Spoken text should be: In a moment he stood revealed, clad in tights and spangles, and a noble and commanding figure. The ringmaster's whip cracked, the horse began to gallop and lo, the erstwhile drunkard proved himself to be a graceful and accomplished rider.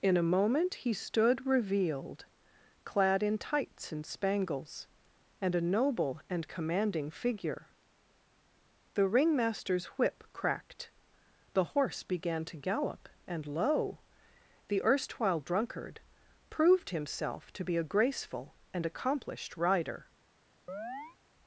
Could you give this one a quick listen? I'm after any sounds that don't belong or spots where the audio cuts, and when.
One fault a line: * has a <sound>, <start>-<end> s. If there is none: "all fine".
* has a chirp, 20.7-21.2 s